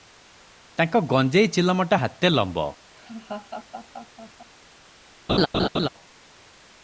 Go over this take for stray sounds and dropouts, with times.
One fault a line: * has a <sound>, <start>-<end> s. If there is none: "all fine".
* has a laugh, 3.0-4.5 s
* has a laugh, 5.3-5.9 s